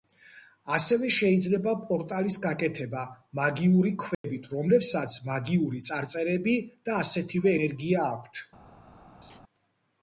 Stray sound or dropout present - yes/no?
yes